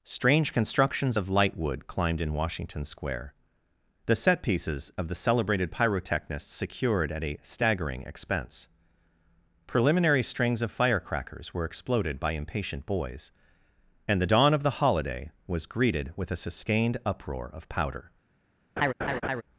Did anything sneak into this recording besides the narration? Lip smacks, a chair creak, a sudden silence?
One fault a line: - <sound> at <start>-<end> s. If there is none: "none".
- laugh at 18.8-19.4 s